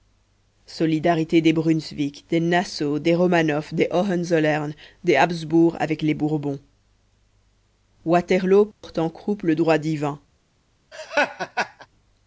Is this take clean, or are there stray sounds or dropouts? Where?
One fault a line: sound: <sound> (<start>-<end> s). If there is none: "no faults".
sound: dropout (8.7-8.8 s)
sound: laugh (10.9-11.9 s)